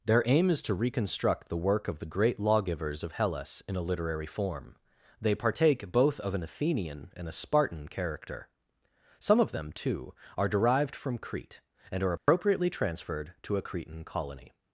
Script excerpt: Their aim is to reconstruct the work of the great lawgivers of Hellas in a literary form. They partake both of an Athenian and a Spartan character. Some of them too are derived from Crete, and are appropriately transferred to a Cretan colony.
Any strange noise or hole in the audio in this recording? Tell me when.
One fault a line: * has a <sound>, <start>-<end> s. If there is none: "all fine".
* has a dropout, 12.2-12.3 s